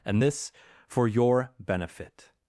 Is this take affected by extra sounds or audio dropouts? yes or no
no